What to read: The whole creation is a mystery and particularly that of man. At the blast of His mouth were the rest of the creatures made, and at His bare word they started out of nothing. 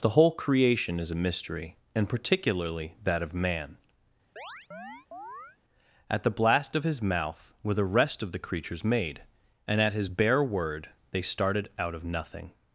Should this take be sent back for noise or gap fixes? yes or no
yes